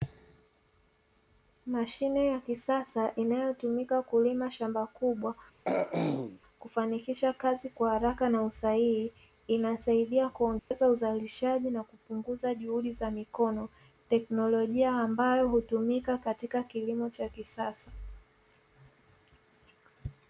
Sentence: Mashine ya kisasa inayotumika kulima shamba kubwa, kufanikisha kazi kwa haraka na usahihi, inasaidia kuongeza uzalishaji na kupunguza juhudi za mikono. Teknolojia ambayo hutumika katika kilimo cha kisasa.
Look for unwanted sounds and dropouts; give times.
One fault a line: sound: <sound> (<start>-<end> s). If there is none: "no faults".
sound: throat clearing (5.7-6.4 s)
sound: dropout (10.6-10.7 s)